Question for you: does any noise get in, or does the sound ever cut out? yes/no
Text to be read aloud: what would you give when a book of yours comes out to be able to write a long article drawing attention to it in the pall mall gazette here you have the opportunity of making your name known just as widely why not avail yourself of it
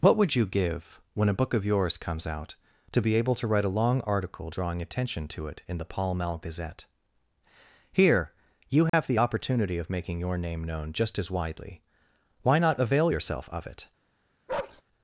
yes